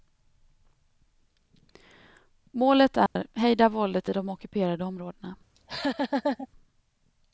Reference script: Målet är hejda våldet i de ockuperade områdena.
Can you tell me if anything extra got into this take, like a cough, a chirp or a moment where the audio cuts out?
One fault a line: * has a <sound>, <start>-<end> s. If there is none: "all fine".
* has a dropout, 3.1-3.2 s
* has a laugh, 5.5-6.5 s